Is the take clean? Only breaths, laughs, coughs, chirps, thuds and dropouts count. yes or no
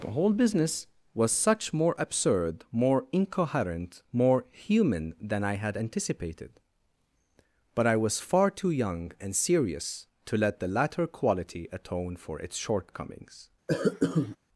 no